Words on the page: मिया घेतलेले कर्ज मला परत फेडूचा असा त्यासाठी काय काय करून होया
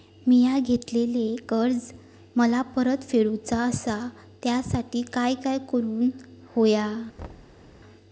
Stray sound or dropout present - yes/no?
yes